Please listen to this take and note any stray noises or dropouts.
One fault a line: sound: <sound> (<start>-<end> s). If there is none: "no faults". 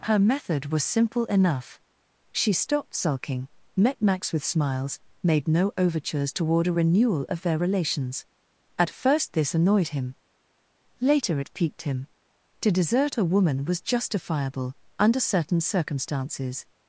no faults